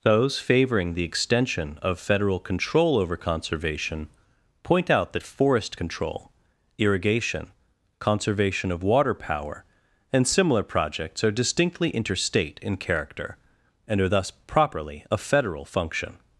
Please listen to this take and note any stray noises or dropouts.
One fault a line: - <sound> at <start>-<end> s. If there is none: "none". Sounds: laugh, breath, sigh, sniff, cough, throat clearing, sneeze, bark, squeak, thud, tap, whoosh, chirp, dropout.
none